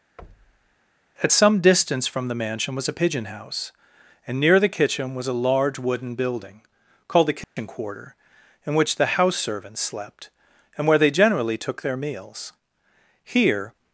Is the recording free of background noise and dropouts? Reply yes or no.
no